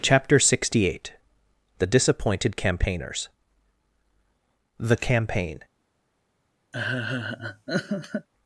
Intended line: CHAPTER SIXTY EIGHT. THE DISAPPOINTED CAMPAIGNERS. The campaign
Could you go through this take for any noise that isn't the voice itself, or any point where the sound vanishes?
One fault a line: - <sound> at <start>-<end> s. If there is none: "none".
- laugh at 6.7-8.3 s